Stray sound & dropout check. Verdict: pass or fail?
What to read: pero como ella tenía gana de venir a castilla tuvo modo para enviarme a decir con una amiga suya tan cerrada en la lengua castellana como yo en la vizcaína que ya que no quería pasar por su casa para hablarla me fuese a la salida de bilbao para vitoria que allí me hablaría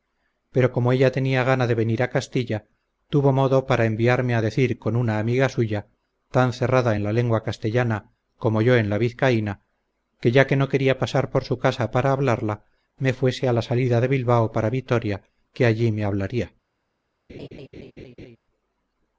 fail